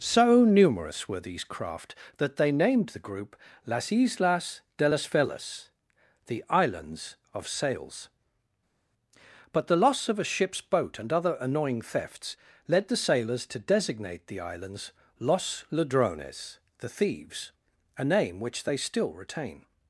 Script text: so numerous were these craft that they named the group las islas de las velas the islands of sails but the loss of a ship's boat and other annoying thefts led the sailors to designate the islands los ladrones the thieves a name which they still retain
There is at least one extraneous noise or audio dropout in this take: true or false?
false